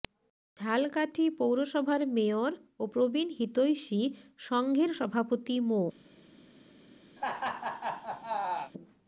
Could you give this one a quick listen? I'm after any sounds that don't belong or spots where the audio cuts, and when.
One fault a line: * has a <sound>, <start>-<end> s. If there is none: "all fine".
* has a laugh, 7.2-8.7 s